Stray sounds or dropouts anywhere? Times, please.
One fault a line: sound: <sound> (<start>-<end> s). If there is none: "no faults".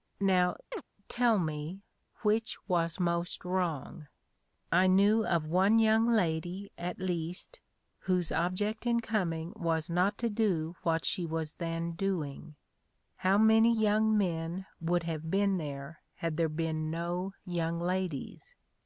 sound: chirp (0.7-0.8 s)